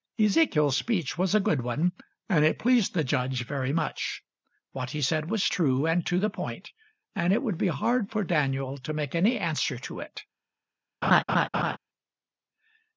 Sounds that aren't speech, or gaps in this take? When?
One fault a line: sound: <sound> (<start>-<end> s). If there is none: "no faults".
sound: laugh (11.0-11.8 s)